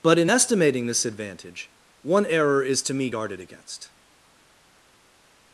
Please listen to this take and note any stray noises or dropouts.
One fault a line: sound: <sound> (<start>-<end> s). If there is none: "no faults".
no faults